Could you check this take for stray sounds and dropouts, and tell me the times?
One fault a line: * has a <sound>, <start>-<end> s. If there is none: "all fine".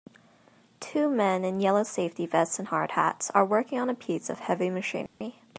* has a dropout, 5.1-5.2 s